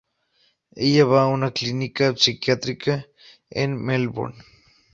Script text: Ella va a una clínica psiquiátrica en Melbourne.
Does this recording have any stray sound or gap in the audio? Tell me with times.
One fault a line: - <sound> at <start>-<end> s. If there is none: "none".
none